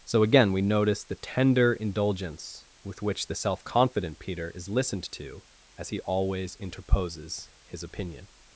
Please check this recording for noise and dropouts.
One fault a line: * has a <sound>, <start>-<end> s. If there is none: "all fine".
all fine